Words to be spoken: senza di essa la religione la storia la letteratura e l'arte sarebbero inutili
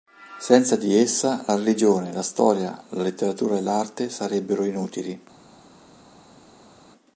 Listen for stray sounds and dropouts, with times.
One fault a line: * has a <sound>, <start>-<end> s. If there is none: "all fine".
all fine